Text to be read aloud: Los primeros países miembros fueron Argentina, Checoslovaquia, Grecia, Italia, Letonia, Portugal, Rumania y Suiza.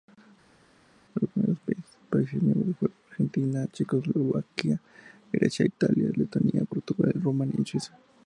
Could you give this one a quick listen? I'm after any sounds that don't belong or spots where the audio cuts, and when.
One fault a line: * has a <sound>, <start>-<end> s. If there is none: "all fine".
all fine